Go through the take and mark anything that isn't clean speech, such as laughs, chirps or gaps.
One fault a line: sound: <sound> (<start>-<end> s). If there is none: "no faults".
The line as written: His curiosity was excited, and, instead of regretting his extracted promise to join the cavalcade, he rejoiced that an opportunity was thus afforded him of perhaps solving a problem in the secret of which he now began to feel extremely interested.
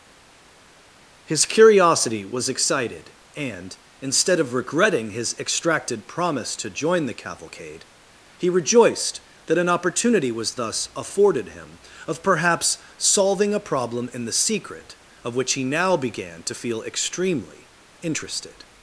no faults